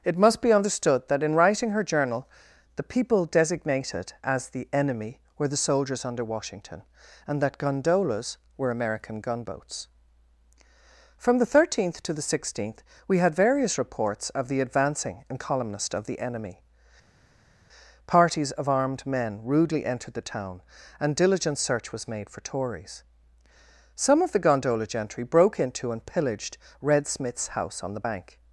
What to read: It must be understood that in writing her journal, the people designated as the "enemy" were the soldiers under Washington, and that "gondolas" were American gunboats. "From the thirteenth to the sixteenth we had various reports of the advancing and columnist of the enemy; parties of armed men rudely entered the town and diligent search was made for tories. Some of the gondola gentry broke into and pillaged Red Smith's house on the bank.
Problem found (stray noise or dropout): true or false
false